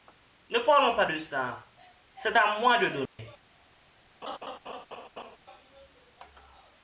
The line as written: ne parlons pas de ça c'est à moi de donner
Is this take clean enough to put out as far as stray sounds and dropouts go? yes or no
no